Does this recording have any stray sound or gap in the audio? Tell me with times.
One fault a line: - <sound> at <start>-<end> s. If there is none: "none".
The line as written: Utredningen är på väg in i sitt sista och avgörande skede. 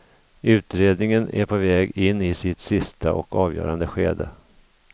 none